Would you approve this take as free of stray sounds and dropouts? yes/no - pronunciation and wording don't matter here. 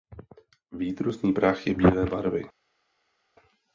yes